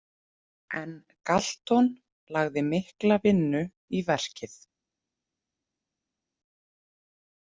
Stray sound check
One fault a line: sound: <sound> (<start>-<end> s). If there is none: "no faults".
no faults